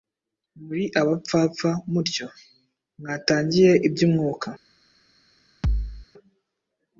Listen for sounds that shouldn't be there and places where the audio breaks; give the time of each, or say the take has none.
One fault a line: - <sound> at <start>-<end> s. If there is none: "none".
- thud at 5.6-6.1 s